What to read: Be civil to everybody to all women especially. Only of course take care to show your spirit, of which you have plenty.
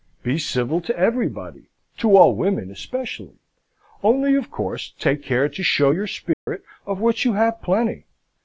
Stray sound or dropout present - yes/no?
yes